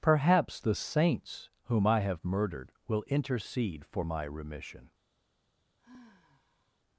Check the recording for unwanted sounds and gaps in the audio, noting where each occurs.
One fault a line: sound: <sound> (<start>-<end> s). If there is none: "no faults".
sound: sigh (5.8-6.8 s)